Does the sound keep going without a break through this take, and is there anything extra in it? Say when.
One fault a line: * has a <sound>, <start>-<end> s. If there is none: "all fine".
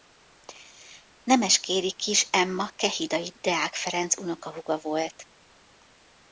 all fine